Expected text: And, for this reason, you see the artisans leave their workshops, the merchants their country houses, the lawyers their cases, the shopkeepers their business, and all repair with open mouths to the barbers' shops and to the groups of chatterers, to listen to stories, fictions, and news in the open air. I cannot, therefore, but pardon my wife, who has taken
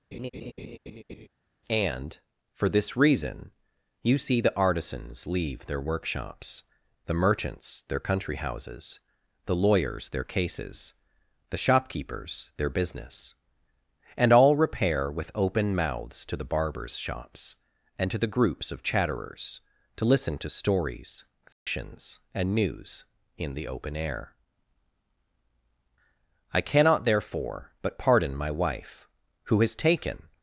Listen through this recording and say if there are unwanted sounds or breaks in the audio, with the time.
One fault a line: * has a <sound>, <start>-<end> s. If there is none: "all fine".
* has a laugh, 0.1-1.3 s
* has a dropout, 21.5-21.7 s